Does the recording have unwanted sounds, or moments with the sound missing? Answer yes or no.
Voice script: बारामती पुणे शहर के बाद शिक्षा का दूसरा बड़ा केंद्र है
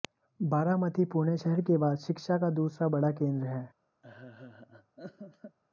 yes